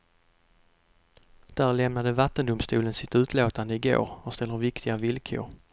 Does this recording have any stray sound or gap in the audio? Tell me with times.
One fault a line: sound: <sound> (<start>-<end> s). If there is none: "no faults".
no faults